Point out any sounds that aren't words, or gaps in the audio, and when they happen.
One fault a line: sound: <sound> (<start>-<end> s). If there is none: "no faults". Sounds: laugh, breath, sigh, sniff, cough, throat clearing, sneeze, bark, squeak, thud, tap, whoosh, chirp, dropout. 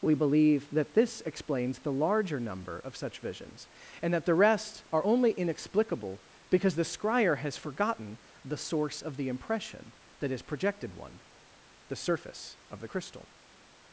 no faults